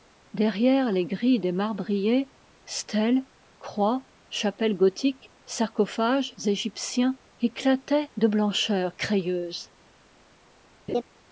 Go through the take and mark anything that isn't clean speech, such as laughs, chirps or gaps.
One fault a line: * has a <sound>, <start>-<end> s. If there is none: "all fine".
* has a laugh, 10.9-11.0 s